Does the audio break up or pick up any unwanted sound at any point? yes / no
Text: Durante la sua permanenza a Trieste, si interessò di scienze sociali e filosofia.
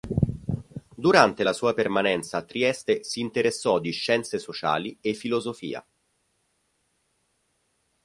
no